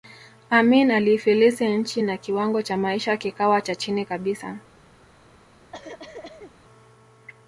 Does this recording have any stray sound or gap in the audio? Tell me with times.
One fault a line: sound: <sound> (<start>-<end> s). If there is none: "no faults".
sound: cough (5.7-6.5 s)